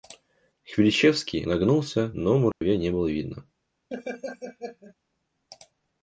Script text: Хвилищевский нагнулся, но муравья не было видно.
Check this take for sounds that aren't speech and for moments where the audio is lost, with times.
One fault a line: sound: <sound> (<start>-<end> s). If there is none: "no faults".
sound: dropout (2.5-2.6 s)
sound: laugh (3.9-4.9 s)